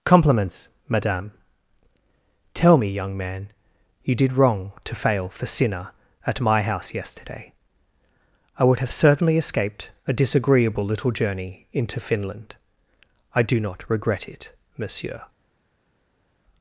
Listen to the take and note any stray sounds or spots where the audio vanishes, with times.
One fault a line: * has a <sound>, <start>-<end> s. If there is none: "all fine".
all fine